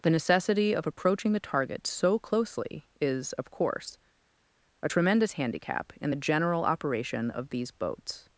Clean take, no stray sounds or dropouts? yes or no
yes